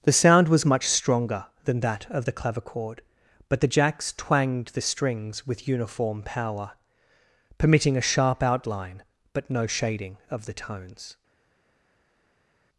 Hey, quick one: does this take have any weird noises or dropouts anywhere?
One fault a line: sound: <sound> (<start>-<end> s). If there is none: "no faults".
no faults